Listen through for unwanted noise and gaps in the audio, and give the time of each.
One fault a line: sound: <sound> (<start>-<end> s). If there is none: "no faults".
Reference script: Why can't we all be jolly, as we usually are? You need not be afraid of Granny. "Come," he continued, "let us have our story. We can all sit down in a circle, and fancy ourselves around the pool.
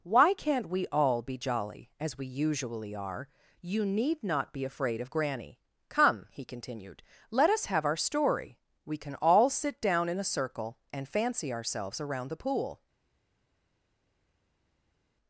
no faults